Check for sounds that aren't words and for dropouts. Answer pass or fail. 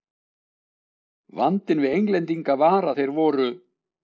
pass